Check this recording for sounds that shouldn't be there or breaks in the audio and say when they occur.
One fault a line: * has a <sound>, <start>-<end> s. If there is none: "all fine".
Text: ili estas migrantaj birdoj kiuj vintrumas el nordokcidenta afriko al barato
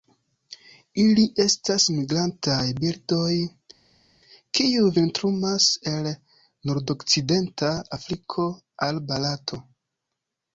all fine